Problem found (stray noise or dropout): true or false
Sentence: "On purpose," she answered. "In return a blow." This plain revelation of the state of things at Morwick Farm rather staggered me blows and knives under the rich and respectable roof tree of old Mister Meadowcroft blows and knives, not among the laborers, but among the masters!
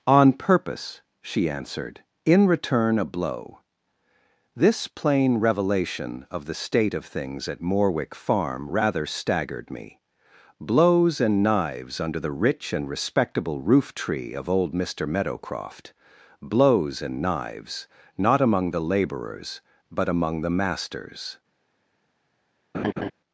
true